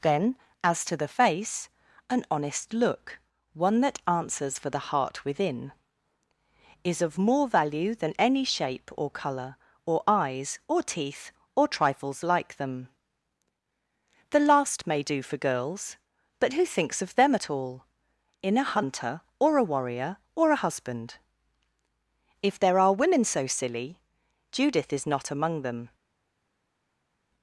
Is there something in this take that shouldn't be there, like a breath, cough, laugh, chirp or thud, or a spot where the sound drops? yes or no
no